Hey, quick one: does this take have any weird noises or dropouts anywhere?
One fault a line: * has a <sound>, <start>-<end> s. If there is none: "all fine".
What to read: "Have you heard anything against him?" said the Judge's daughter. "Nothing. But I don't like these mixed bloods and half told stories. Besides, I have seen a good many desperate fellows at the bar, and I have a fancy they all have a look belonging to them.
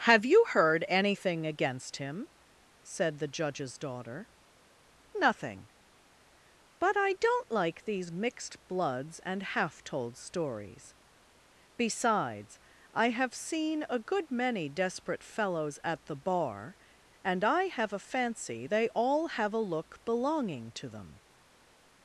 all fine